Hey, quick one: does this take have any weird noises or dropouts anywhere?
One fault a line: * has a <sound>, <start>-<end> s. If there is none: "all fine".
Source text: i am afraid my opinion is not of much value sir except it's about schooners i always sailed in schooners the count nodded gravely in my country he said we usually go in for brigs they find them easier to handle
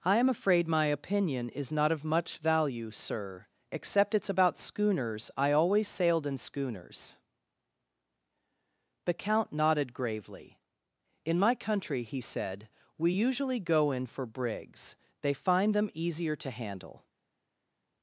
all fine